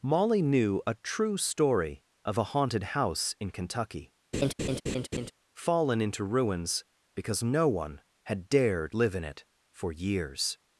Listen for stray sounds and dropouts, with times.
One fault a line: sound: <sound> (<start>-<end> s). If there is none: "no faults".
sound: laugh (4.3-5.3 s)